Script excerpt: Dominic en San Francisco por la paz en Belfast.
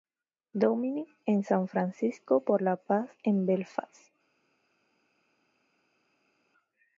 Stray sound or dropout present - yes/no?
no